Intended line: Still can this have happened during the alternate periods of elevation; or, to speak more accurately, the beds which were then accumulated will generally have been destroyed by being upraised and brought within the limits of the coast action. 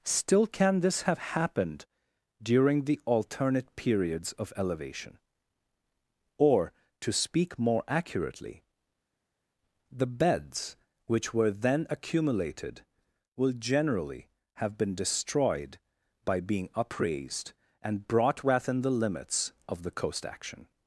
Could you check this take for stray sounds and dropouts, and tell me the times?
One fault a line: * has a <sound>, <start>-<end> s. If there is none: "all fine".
all fine